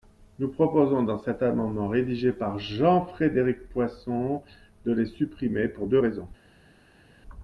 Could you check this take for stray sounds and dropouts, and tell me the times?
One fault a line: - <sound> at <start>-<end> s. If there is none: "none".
none